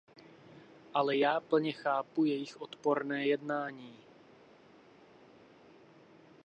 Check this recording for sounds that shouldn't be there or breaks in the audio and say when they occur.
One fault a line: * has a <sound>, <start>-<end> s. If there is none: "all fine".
all fine